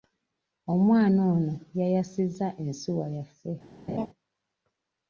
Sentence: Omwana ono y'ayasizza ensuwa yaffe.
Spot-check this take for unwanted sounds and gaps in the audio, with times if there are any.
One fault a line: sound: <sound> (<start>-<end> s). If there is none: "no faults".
sound: laugh (3.9-4.1 s)